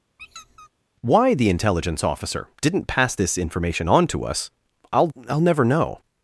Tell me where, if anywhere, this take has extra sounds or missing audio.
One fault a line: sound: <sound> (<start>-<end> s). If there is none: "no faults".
sound: squeak (0.2-0.7 s)